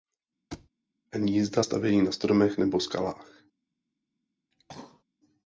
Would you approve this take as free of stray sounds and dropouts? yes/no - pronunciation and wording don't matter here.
no